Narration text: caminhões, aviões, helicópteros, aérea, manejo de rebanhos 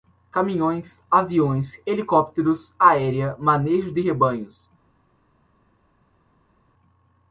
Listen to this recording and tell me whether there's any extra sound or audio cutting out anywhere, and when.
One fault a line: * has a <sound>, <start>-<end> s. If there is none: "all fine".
all fine